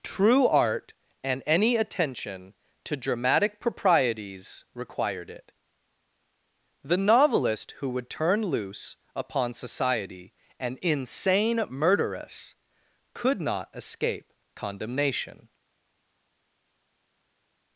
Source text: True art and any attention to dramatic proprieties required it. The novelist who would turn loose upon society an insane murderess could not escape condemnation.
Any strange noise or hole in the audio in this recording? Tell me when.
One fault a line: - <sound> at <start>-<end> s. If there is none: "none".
none